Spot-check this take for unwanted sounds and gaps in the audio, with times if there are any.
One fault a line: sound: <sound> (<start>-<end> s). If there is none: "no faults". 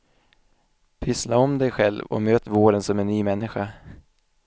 no faults